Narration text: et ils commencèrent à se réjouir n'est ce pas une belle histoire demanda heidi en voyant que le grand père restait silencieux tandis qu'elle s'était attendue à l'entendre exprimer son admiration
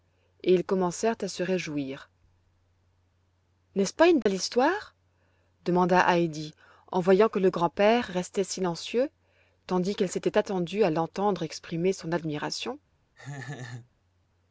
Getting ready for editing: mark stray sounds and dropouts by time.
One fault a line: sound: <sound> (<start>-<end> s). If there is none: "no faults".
sound: dropout (4.2-4.3 s)
sound: laugh (13.2-13.9 s)